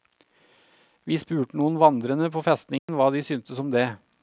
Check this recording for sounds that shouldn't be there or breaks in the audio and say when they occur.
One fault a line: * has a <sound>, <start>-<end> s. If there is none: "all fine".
* has a dropout, 2.8-2.9 s